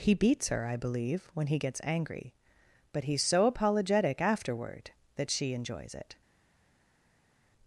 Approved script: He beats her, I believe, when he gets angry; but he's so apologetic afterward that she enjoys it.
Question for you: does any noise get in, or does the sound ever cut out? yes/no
no